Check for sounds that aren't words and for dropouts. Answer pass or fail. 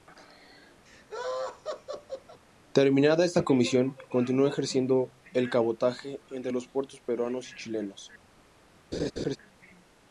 fail